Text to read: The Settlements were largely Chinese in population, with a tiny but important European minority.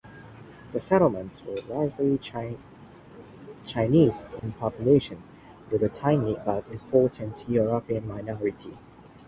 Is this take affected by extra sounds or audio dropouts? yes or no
yes